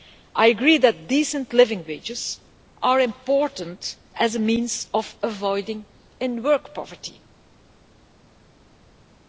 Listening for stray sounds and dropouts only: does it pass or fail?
pass